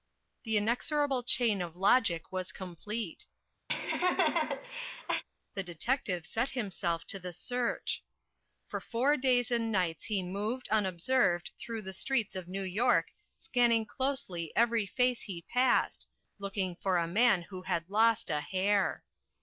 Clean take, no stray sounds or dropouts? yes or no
no